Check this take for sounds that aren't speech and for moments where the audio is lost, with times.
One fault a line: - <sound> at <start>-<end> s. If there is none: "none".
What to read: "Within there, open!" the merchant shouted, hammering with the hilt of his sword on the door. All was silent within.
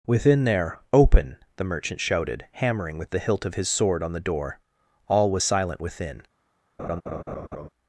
- laugh at 6.8-7.7 s